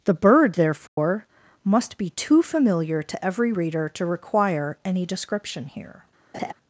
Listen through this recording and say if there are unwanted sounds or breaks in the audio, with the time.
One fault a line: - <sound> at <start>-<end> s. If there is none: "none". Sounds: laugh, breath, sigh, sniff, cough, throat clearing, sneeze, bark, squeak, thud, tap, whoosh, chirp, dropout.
- dropout at 0.9-1.0 s
- laugh at 6.3-6.5 s